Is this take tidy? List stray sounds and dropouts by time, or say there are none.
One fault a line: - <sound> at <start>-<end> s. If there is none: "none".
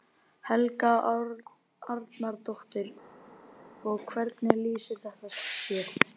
none